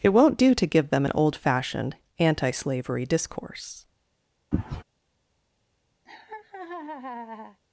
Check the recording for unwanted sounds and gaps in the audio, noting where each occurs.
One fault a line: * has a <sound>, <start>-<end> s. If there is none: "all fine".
* has a sneeze, 4.5-4.8 s
* has a laugh, 6.1-7.6 s